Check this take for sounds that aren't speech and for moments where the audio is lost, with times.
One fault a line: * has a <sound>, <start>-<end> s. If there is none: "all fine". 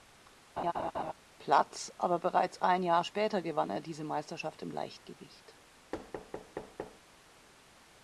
* has a laugh, 0.6-1.1 s
* has a thud, 5.9-7.0 s